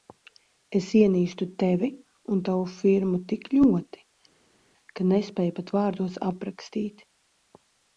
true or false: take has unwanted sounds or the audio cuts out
false